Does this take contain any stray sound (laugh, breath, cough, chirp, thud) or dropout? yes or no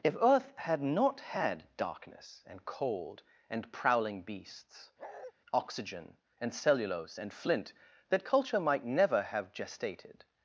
yes